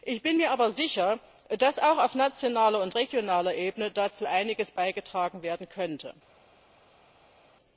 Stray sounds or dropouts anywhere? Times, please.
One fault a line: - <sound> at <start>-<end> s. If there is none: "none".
none